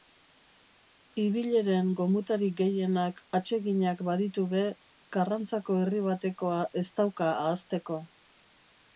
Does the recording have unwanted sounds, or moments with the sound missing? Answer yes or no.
no